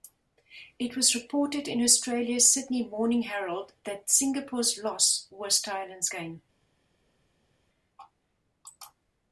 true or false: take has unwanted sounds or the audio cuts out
false